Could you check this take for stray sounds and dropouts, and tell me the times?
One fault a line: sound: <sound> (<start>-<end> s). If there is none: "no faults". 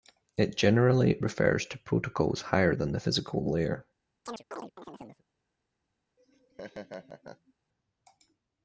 sound: chirp (4.3-5.2 s)
sound: laugh (6.2-7.5 s)